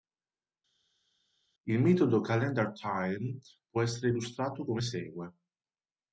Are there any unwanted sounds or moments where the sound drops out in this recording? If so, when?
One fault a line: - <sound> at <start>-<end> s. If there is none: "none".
none